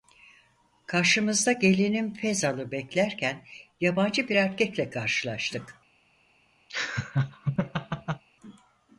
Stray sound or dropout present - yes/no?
yes